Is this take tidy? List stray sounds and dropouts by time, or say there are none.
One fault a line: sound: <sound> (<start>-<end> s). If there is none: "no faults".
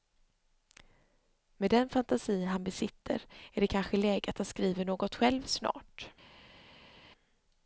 no faults